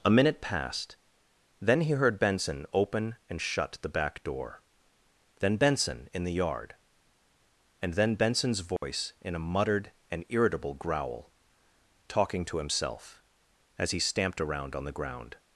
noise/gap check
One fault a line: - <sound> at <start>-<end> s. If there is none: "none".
- dropout at 8.8-8.8 s